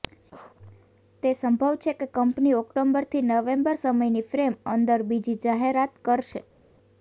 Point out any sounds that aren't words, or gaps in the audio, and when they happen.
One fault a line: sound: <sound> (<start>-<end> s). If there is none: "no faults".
no faults